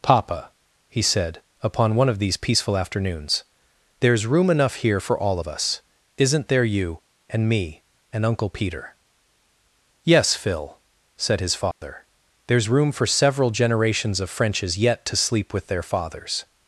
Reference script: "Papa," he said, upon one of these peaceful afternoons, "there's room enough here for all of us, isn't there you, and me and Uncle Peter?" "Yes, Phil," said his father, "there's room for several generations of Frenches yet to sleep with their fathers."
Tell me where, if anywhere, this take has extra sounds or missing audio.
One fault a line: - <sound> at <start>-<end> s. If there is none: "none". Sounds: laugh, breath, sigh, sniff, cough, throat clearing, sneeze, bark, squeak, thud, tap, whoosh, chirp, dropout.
- dropout at 11.7-11.8 s